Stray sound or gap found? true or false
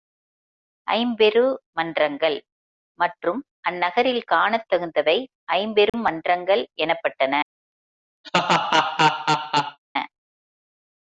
true